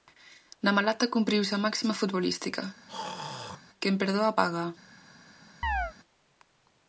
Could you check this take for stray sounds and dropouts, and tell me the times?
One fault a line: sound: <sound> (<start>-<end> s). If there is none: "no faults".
sound: throat clearing (2.9-3.6 s)
sound: chirp (5.6-5.9 s)